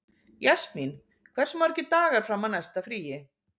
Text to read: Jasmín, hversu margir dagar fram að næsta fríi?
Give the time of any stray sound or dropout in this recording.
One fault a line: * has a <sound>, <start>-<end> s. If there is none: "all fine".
all fine